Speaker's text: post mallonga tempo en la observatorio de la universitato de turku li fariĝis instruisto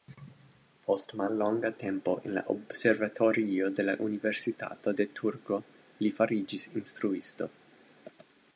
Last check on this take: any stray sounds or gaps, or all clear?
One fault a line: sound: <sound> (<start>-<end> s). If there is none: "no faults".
no faults